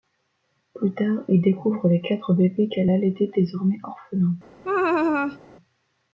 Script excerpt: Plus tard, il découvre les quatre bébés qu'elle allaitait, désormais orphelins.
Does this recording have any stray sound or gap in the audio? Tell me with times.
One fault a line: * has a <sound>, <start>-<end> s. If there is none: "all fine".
* has a laugh, 4.6-5.4 s